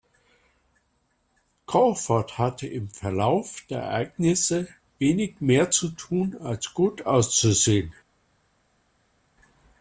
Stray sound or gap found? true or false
false